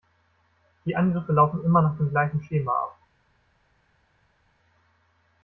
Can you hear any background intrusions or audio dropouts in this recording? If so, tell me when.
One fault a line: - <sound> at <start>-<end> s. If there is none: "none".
none